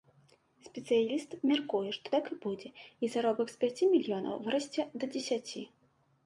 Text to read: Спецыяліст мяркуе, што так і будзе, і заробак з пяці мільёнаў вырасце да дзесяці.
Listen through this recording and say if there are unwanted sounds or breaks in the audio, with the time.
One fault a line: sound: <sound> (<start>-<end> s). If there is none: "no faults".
no faults